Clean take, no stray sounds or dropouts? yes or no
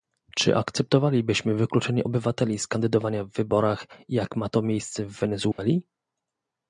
no